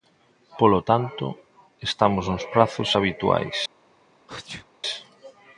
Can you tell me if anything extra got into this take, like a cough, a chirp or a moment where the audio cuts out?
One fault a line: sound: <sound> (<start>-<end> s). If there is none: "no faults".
sound: sneeze (4.3-4.7 s)